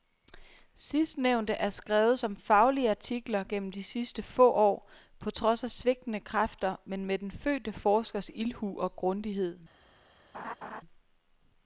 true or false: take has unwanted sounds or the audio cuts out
true